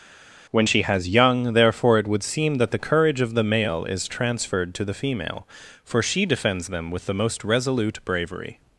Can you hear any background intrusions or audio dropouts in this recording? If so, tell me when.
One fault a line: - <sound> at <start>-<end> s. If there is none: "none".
none